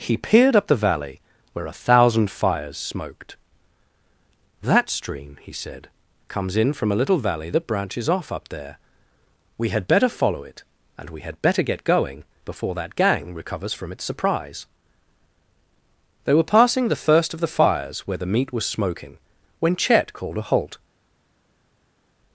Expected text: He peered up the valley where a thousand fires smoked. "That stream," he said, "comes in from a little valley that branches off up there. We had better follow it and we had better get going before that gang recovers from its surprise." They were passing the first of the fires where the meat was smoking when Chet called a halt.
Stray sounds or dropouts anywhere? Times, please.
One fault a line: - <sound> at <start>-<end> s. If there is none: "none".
none